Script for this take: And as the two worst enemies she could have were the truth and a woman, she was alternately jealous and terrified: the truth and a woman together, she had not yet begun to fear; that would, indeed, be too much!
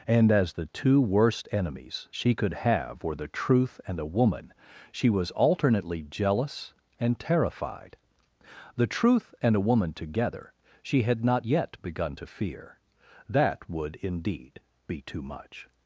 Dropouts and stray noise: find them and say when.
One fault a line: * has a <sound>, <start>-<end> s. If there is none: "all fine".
all fine